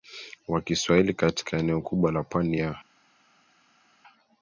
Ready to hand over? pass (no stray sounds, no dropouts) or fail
pass